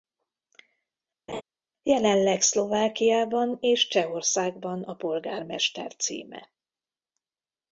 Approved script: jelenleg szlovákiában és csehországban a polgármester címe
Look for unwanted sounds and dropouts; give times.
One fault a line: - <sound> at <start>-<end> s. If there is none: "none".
- laugh at 1.3-1.4 s